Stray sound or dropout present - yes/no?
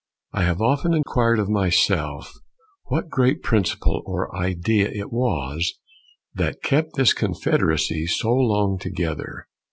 yes